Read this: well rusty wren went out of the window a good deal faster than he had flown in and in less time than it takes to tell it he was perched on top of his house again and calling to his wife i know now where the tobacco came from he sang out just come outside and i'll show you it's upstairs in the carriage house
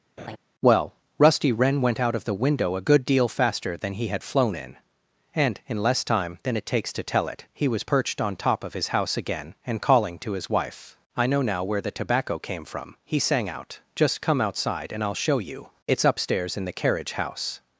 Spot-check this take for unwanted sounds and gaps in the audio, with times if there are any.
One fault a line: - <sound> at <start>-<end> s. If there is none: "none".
- laugh at 0.2-0.4 s